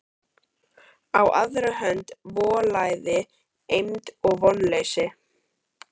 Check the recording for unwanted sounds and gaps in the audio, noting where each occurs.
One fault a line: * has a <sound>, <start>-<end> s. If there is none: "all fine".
all fine